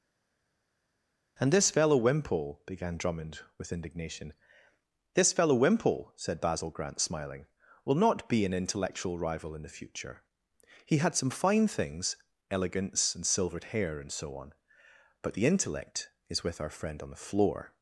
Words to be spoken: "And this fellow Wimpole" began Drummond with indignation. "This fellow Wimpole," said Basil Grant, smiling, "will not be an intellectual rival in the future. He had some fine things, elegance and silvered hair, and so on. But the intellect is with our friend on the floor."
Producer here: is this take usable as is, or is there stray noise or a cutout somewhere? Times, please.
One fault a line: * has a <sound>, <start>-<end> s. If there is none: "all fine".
all fine